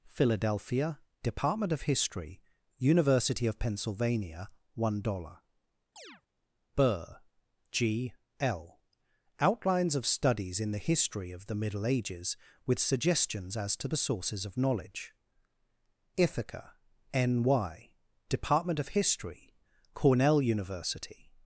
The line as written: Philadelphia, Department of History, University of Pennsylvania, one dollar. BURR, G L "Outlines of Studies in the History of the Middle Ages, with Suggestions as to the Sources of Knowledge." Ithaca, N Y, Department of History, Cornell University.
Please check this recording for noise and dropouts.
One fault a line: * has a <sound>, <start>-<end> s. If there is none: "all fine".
* has a chirp, 6.0-6.2 s